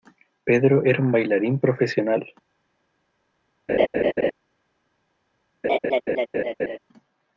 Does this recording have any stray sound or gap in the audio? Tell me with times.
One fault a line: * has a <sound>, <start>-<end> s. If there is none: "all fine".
* has a laugh, 3.7-4.3 s
* has a laugh, 5.6-6.8 s